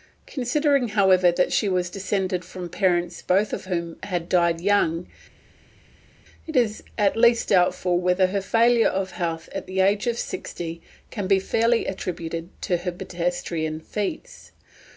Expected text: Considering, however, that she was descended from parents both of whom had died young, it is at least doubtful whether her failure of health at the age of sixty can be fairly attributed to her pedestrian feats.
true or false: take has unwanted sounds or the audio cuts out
false